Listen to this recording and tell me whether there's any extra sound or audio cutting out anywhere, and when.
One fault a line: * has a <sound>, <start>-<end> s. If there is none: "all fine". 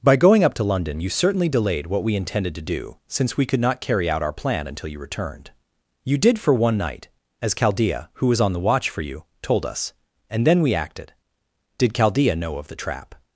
all fine